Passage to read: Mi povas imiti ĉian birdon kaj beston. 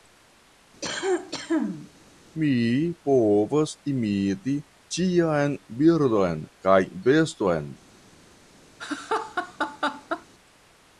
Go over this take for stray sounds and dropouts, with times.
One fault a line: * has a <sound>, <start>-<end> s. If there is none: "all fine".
* has a cough, 0.8-1.9 s
* has a laugh, 8.8-10.3 s